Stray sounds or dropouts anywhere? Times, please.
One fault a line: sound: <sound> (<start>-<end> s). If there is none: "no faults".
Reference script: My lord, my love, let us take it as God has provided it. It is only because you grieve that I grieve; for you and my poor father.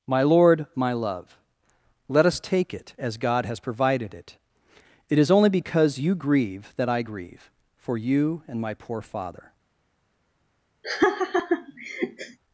sound: laugh (10.8-12.4 s)